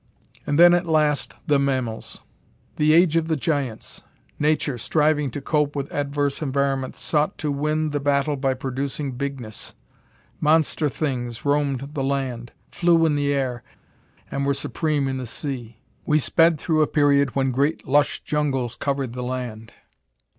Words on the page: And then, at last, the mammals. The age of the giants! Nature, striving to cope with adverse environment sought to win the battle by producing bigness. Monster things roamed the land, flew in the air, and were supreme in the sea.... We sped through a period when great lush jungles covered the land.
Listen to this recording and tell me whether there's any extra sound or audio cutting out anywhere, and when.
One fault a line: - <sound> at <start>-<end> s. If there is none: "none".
none